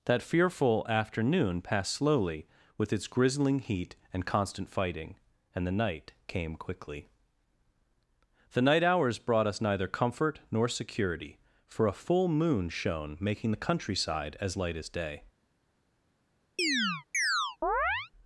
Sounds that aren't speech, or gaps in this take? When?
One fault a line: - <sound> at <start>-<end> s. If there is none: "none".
- chirp at 16.6-18.1 s